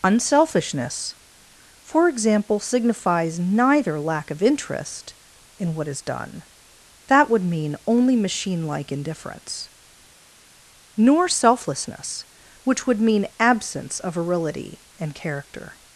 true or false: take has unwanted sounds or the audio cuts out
false